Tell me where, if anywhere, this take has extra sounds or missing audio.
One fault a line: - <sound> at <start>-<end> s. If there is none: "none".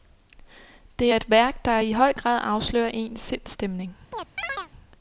- chirp at 4.1-4.7 s